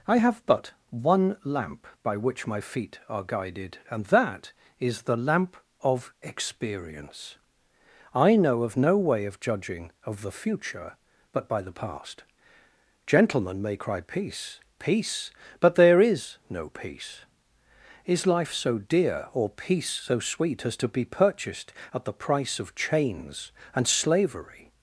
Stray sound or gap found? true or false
false